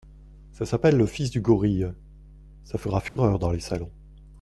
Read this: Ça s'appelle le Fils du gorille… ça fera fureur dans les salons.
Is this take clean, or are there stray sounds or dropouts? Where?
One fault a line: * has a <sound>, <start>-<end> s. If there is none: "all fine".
* has a dropout, 3.1-3.2 s